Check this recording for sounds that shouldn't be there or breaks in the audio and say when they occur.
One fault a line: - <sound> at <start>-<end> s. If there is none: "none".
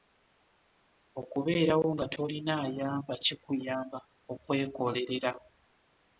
none